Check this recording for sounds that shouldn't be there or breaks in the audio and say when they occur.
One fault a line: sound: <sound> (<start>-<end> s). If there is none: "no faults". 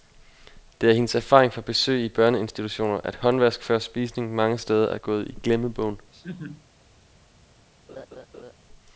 sound: laugh (6.1-6.7 s)
sound: laugh (7.9-8.5 s)